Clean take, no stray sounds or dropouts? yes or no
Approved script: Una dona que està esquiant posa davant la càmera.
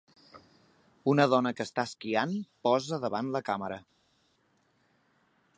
yes